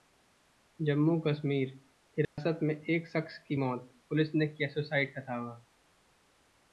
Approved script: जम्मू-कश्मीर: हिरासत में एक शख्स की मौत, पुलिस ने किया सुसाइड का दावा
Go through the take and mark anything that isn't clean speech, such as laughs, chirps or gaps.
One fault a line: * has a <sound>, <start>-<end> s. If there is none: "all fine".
* has a dropout, 2.2-2.4 s